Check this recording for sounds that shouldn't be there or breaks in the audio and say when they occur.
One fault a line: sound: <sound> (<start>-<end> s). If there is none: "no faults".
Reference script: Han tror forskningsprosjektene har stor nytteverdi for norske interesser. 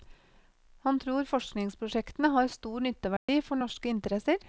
sound: dropout (3.2-3.3 s)